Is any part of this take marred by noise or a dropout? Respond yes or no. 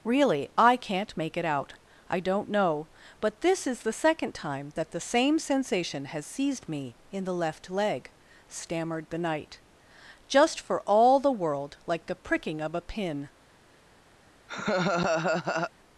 yes